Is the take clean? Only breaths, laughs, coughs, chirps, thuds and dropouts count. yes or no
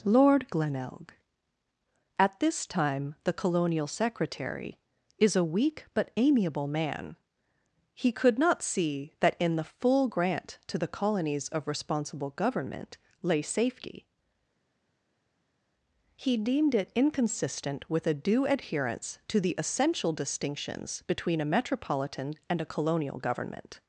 yes